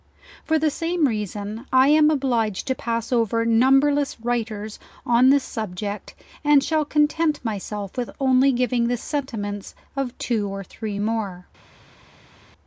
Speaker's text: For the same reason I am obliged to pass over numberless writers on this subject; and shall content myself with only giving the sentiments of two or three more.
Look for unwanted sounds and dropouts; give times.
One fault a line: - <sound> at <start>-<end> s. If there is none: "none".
none